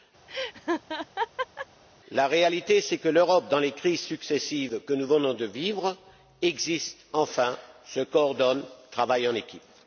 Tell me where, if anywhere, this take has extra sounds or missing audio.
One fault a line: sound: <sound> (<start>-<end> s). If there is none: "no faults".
sound: laugh (0.3-1.7 s)